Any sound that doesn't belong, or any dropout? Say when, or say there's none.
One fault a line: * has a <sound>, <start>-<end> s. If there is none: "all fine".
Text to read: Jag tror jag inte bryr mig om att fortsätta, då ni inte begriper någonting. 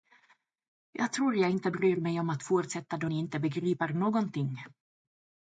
all fine